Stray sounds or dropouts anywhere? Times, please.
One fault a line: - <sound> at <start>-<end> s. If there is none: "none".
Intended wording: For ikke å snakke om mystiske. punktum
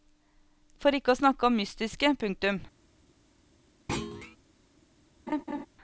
- thud at 3.9-4.4 s
- laugh at 5.3-5.7 s